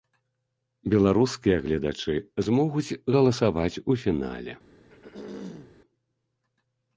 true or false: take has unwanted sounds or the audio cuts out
true